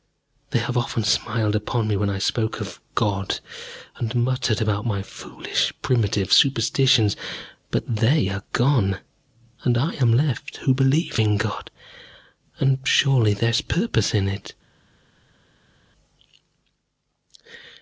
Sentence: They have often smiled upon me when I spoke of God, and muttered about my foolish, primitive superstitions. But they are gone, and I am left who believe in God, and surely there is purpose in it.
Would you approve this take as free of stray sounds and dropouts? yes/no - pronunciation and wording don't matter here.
yes